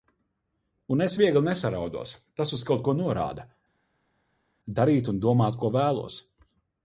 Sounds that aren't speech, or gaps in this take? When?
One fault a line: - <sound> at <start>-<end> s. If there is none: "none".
none